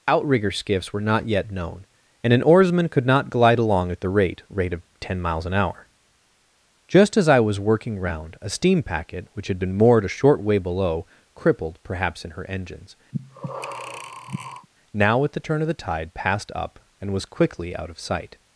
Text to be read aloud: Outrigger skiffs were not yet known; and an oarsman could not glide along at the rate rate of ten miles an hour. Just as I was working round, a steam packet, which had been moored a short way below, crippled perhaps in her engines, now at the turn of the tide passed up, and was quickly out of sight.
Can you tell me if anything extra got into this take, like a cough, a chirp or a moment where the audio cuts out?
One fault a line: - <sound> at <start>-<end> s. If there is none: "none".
- breath at 13.1-14.7 s